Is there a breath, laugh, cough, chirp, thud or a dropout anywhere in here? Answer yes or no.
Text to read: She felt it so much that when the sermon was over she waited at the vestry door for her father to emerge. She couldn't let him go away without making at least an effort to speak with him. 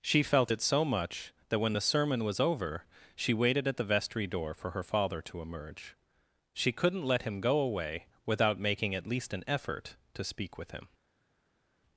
no